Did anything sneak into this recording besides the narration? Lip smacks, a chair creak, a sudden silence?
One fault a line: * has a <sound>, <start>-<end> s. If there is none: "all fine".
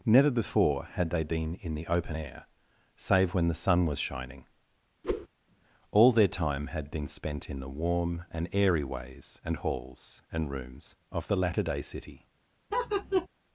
* has a whoosh, 5.0-5.3 s
* has a laugh, 12.7-13.3 s